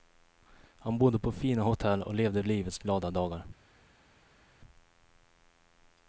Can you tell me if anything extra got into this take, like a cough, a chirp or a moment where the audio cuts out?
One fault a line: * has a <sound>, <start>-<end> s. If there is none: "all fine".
all fine